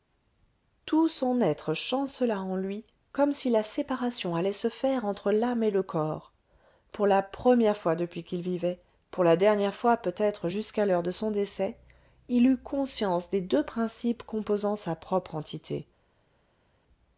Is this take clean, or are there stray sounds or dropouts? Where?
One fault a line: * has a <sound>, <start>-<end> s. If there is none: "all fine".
all fine